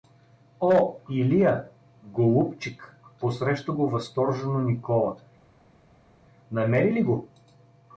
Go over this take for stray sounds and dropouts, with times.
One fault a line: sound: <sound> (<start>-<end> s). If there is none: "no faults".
no faults